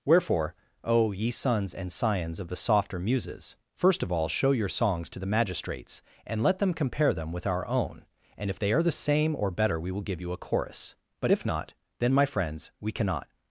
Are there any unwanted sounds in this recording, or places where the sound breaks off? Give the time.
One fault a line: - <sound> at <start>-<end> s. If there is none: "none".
none